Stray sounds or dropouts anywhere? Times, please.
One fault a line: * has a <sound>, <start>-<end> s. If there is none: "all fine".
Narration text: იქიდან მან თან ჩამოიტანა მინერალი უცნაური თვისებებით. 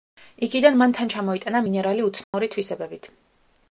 * has a dropout, 2.2-2.3 s